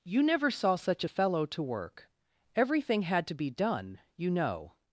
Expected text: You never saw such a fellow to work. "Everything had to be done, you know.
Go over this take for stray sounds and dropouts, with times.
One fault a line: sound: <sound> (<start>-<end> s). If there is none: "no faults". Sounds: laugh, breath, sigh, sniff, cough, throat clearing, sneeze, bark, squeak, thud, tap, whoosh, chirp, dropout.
no faults